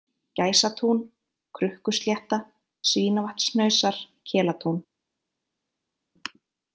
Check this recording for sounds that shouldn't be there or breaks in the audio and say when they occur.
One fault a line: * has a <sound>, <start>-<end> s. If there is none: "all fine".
all fine